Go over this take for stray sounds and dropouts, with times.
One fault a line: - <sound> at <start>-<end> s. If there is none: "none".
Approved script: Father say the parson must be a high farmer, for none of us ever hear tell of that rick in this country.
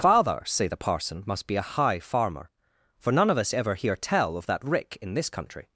none